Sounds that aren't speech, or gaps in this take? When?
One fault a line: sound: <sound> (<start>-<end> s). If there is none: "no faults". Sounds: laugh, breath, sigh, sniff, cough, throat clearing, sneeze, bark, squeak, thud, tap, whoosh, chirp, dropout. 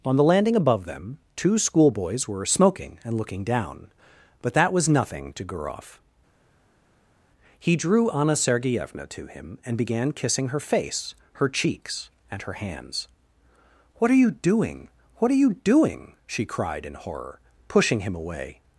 no faults